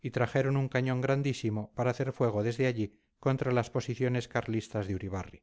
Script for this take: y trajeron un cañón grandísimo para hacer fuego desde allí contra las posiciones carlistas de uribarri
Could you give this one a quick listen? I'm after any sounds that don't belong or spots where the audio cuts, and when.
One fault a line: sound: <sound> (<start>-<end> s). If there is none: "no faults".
no faults